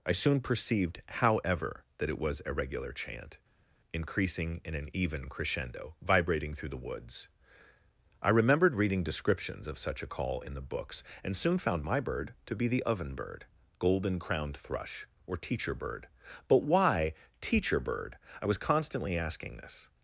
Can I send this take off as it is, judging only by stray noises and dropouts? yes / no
yes